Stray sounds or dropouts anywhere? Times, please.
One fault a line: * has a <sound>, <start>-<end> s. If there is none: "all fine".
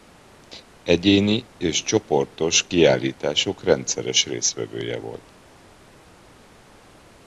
all fine